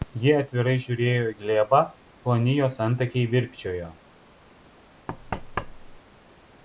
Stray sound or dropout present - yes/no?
yes